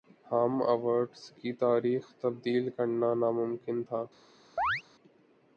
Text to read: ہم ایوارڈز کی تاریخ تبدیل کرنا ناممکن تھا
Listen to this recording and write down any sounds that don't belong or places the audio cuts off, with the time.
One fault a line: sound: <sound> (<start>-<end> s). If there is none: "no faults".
sound: chirp (4.6-4.8 s)